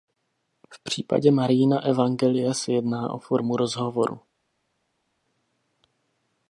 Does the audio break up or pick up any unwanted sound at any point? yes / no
no